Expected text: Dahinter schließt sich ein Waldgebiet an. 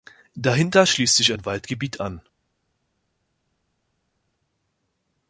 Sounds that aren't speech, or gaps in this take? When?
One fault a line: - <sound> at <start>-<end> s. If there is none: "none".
none